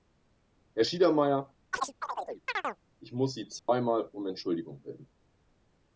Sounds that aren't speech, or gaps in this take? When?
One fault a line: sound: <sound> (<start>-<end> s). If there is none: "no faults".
sound: chirp (1.7-2.8 s)
sound: dropout (3.6-3.7 s)